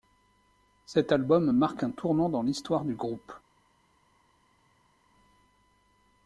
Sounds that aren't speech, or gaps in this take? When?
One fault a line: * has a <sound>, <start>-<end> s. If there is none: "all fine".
all fine